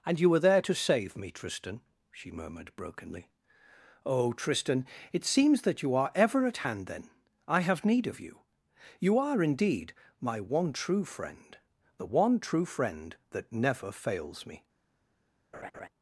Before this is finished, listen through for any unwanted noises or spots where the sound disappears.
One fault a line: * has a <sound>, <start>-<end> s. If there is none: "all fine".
* has a laugh, 15.5-15.9 s